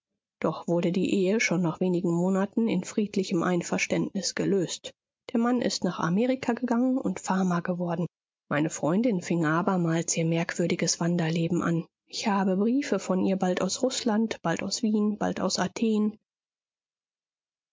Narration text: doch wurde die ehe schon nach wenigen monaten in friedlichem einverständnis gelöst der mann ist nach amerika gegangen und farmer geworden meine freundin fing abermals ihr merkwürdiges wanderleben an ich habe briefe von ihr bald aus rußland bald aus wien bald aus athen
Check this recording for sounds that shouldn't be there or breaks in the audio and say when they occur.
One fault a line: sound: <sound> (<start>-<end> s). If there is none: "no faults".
no faults